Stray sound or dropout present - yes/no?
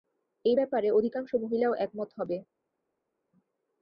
no